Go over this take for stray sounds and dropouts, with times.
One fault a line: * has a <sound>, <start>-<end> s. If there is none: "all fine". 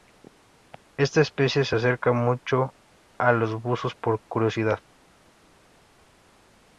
all fine